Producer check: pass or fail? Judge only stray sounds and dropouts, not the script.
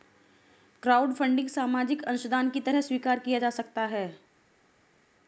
pass